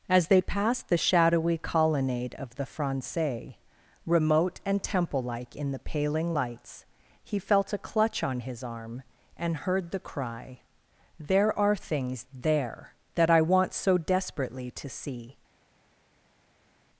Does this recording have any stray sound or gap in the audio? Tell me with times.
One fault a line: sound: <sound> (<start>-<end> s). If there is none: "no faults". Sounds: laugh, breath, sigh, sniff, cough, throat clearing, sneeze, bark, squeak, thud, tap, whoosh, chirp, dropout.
no faults